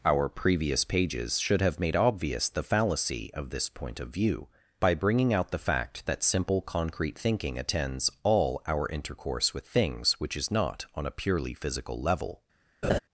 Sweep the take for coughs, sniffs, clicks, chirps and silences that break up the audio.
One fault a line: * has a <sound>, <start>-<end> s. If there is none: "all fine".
* has a laugh, 12.8-13.0 s